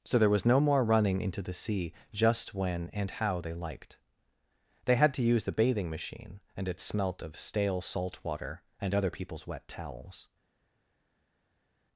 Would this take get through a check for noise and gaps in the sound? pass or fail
pass